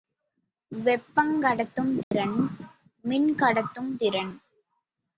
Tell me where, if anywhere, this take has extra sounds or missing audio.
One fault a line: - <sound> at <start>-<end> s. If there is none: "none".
- dropout at 2.0-2.1 s